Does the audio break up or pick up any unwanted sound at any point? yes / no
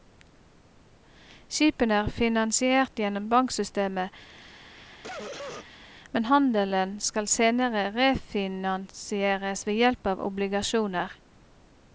yes